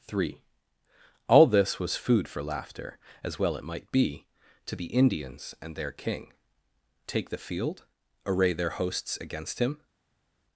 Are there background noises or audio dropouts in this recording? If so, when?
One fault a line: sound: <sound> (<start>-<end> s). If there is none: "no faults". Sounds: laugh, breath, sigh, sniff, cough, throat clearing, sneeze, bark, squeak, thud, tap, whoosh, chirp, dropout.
no faults